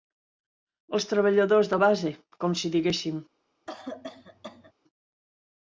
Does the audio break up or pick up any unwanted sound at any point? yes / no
yes